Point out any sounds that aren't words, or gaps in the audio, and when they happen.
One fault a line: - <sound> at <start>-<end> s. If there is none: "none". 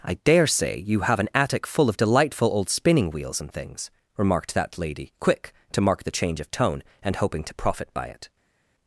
none